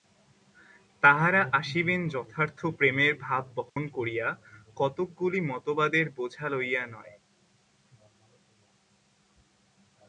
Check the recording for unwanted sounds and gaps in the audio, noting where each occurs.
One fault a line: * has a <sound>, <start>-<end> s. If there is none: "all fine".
* has a dropout, 3.7-3.8 s